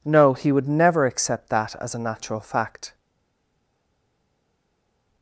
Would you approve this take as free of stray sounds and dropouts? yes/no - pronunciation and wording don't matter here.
yes